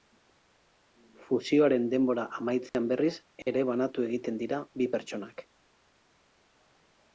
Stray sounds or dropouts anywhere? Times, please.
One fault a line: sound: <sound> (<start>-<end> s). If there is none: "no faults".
sound: dropout (2.7-2.7 s)